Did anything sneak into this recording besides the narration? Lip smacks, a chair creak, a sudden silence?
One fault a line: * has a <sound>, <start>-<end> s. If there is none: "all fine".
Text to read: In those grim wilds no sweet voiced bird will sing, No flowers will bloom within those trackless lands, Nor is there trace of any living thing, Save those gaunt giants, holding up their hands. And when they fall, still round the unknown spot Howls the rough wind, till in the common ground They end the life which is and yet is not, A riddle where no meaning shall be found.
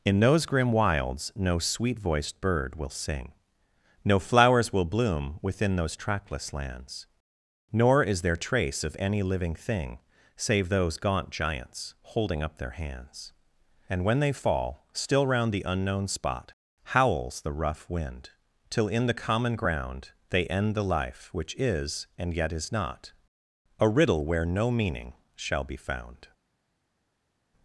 all fine